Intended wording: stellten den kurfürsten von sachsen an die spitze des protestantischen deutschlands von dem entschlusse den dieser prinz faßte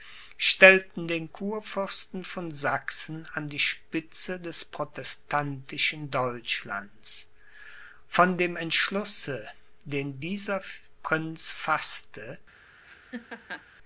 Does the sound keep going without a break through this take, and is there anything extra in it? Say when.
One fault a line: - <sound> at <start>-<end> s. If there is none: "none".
- laugh at 12.8-13.6 s